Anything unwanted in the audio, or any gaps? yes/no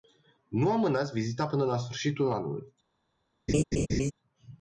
yes